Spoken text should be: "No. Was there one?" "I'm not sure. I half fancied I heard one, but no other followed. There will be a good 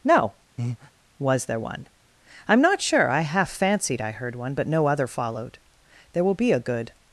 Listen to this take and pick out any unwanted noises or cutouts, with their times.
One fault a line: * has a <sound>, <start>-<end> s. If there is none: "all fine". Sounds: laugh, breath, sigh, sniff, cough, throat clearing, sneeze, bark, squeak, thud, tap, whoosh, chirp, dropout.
* has a breath, 0.6-0.9 s